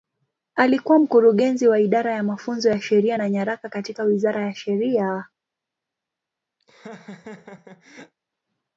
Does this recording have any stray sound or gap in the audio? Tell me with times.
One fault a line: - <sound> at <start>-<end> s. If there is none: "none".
- laugh at 6.6-8.1 s